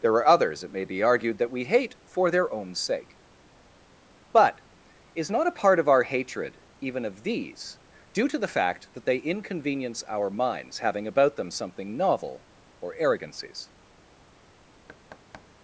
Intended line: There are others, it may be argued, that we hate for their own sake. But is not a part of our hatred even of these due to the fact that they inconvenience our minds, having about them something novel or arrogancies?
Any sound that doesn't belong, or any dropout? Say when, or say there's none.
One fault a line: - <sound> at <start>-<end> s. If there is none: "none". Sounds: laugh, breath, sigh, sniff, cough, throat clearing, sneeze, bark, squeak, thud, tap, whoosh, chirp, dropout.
- thud at 14.9-15.5 s